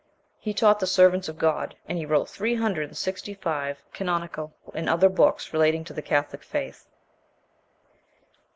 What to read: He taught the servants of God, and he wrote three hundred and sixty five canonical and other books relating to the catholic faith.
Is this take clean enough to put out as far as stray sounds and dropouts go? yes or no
yes